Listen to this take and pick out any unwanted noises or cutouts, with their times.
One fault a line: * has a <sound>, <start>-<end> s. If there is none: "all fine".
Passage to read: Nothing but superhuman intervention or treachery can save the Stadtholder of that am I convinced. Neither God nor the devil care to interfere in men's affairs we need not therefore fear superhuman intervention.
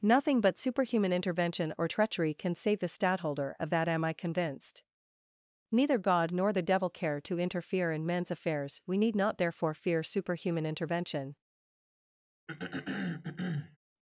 * has a throat clearing, 12.5-13.8 s